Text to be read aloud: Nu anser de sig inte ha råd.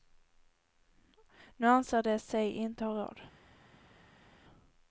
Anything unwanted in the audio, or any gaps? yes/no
no